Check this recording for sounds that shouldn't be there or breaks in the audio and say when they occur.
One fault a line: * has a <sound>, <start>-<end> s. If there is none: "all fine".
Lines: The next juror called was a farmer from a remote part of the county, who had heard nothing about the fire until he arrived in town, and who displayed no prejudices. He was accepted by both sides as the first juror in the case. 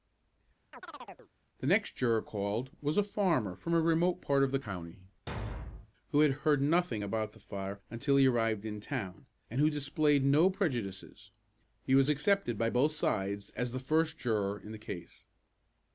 * has a chirp, 0.7-1.3 s
* has a thud, 5.3-5.9 s